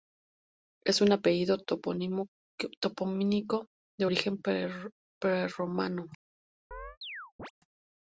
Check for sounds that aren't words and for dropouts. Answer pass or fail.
fail